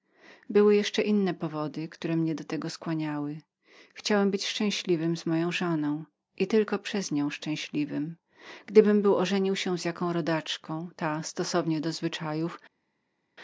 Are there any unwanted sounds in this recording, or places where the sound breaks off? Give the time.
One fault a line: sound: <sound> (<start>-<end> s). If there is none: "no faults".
no faults